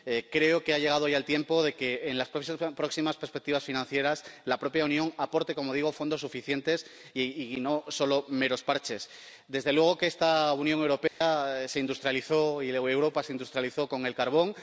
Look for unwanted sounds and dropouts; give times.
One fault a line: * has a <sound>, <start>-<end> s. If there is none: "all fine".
* has a dropout, 11.1-11.2 s